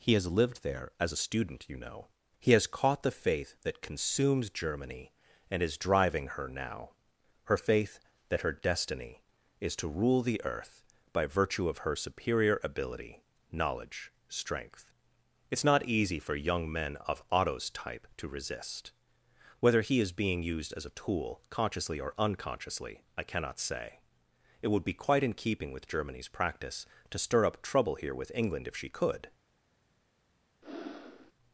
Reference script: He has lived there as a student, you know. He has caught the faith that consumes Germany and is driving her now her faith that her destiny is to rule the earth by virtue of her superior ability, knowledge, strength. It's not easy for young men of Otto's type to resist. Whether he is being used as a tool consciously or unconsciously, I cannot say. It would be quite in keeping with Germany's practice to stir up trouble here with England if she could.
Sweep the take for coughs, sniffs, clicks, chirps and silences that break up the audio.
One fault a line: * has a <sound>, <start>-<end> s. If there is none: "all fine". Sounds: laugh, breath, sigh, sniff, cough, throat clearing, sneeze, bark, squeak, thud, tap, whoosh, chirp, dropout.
* has a breath, 30.6-31.3 s